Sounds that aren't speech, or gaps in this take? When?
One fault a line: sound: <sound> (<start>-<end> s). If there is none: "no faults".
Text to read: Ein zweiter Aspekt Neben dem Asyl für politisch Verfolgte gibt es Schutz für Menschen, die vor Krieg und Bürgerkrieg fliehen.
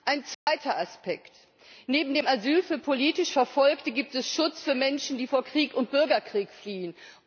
sound: dropout (0.3-0.5 s)